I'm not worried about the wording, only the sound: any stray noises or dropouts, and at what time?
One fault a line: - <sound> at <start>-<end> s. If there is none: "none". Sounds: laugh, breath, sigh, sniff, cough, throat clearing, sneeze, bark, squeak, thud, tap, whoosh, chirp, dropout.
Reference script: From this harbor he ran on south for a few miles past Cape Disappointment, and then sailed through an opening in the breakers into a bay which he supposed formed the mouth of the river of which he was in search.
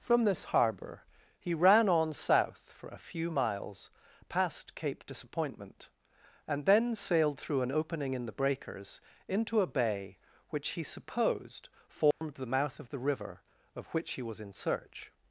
- dropout at 12.1-12.2 s